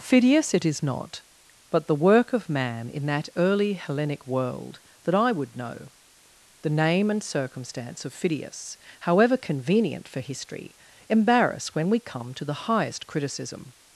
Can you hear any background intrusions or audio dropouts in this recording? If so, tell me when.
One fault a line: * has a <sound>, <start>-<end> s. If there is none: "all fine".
all fine